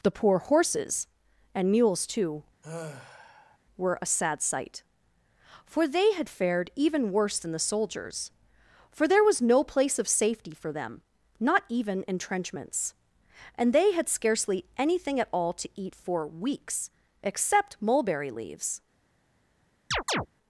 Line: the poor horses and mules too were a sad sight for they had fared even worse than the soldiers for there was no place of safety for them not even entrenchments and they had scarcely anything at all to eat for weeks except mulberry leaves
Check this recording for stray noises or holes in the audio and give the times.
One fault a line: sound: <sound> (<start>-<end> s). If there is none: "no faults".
sound: sigh (2.6-3.6 s)
sound: chirp (19.9-20.3 s)